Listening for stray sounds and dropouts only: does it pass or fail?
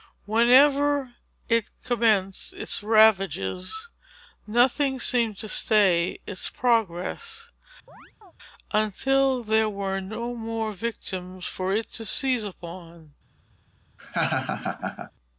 fail